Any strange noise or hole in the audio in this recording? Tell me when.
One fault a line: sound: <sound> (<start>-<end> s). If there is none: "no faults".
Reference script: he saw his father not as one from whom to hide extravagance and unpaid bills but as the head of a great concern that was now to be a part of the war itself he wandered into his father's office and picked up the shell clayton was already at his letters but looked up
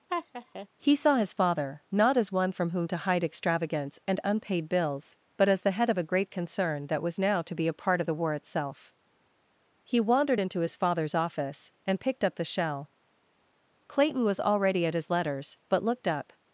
sound: laugh (0.1-0.7 s)